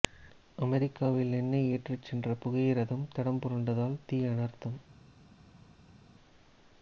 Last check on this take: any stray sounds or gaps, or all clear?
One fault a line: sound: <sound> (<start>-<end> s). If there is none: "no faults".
no faults